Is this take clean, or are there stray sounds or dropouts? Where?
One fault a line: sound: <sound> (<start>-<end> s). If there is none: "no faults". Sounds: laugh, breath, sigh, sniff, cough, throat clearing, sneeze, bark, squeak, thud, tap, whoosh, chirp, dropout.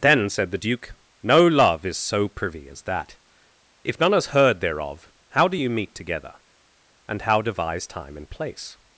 no faults